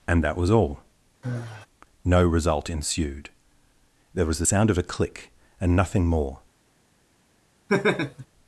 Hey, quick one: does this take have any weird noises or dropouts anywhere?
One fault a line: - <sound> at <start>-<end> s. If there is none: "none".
- sigh at 1.2-1.7 s
- laugh at 7.7-8.3 s